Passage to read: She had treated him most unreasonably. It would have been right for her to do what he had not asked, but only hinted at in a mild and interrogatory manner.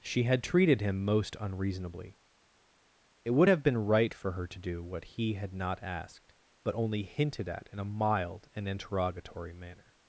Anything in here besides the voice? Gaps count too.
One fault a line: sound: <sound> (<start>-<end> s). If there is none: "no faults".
no faults